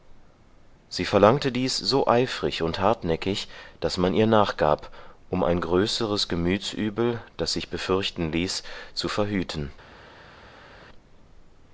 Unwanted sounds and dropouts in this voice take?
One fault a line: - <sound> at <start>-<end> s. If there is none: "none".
none